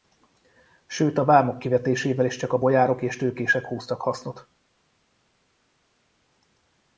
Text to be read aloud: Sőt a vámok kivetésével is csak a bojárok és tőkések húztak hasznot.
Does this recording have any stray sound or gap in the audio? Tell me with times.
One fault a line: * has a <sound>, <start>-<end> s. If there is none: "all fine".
all fine